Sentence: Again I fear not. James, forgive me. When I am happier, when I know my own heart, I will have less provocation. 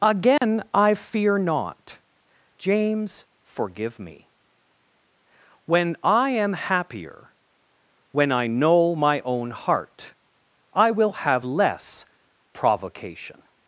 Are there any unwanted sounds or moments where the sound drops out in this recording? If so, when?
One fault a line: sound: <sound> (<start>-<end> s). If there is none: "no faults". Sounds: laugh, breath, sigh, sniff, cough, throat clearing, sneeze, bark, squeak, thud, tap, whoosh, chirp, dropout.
sound: dropout (0.4-0.4 s)